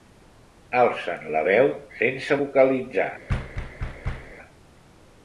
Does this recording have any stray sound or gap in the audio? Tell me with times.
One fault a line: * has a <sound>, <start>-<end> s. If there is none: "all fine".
* has a thud, 3.3-4.3 s